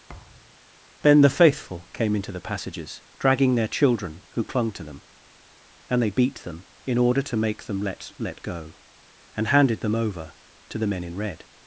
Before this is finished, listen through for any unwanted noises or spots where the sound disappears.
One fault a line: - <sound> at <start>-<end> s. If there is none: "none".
- thud at 0.1-0.6 s